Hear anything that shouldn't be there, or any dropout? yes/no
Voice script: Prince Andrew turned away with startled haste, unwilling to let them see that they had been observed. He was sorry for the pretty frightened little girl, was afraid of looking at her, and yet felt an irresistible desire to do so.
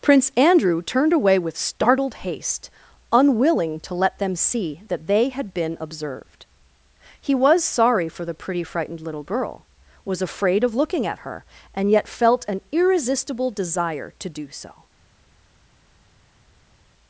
no